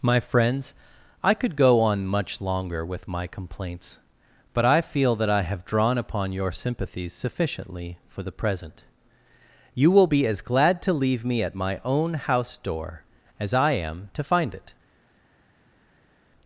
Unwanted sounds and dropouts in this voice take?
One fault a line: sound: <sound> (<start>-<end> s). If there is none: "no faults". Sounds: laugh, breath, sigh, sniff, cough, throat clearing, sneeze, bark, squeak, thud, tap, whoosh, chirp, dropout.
no faults